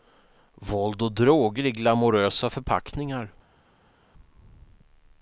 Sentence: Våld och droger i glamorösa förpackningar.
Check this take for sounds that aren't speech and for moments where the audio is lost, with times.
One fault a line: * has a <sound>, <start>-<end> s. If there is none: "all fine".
all fine